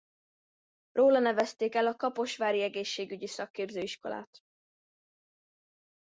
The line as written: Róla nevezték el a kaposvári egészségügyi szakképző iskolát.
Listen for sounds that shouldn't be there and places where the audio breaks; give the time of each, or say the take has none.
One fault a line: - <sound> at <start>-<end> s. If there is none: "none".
none